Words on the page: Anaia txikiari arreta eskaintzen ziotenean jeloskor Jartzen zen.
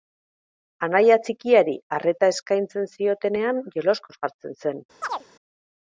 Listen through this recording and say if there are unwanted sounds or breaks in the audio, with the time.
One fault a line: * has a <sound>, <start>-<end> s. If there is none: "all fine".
* has a chirp, 5.0-5.3 s